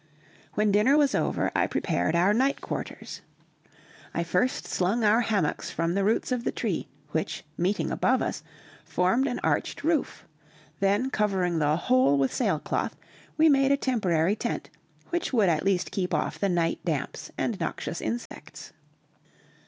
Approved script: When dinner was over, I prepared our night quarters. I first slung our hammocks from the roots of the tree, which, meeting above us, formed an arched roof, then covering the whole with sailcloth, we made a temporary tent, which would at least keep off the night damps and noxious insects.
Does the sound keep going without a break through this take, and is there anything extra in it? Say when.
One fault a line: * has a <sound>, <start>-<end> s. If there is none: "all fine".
* has a dropout, 18.3-18.3 s